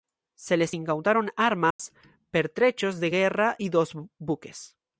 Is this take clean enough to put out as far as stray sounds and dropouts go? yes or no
no